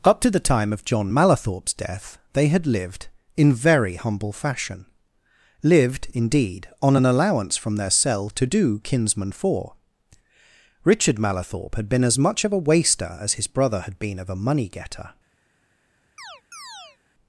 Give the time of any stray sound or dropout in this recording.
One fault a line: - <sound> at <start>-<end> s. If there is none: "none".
- chirp at 16.2-17.0 s